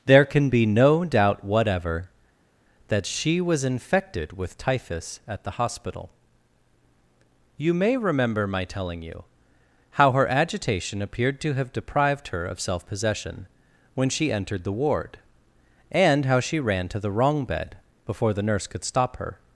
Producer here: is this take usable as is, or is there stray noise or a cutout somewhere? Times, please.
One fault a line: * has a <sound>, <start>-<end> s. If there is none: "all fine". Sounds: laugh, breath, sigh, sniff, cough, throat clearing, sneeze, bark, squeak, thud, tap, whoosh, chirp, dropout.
all fine